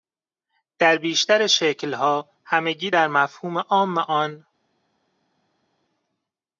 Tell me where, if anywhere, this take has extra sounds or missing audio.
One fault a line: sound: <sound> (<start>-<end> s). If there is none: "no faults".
no faults